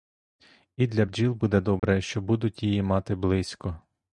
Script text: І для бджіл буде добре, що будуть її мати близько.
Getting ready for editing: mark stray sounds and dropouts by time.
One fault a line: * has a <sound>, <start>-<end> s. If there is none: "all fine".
* has a dropout, 1.8-1.8 s